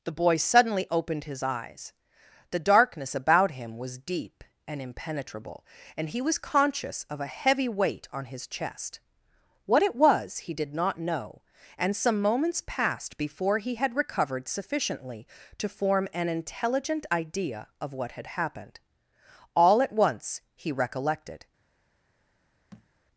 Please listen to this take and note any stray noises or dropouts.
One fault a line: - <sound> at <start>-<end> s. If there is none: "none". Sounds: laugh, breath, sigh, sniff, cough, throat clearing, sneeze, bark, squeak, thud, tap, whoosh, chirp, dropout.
- thud at 22.7-22.9 s